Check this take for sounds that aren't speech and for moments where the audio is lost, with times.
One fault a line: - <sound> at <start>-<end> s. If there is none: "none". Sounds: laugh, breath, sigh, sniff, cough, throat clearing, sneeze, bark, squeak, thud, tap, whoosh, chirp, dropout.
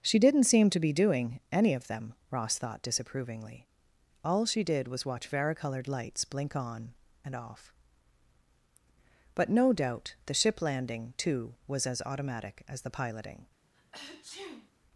- sneeze at 13.7-14.7 s